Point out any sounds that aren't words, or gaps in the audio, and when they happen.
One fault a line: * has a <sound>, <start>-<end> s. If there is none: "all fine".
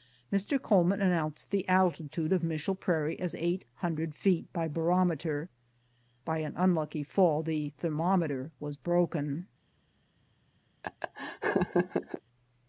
* has a laugh, 10.8-12.2 s